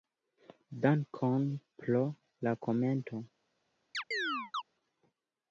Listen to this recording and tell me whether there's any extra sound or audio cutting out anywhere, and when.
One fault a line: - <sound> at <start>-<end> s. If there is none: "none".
- chirp at 3.9-4.6 s